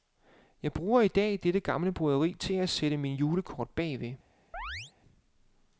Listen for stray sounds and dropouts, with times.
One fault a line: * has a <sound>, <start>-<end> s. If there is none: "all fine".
* has a chirp, 4.5-4.9 s